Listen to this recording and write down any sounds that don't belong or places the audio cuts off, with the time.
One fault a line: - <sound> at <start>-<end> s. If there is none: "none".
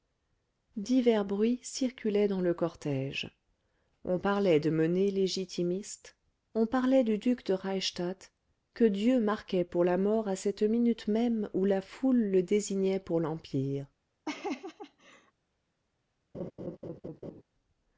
- laugh at 14.2-15.3 s
- laugh at 16.3-17.4 s